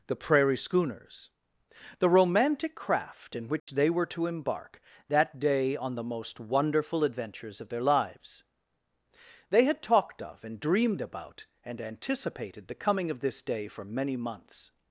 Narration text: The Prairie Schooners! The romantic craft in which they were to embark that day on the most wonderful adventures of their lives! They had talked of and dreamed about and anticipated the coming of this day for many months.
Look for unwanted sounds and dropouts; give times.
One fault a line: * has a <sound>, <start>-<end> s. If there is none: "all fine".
* has a dropout, 3.6-3.7 s